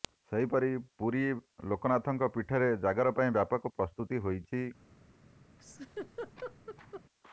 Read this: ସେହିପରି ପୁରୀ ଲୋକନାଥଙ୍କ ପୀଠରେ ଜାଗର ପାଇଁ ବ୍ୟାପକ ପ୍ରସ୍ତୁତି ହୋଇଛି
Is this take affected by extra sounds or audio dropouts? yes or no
yes